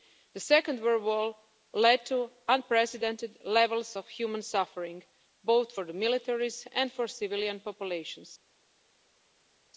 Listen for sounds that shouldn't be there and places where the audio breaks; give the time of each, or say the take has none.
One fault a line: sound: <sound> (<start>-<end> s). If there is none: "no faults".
no faults